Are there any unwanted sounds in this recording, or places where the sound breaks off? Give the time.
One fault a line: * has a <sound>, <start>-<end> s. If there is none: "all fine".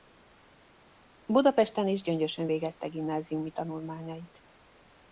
all fine